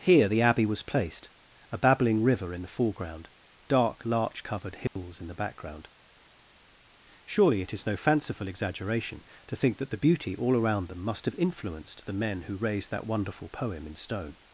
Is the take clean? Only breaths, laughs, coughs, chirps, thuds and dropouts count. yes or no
no